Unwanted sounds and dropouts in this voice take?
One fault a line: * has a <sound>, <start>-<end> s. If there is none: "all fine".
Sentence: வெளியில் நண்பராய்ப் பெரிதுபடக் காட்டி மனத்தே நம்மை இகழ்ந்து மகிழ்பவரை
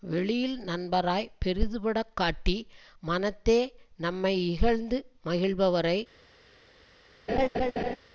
* has a laugh, 7.3-8.0 s